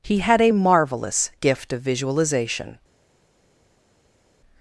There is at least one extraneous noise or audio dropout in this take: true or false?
false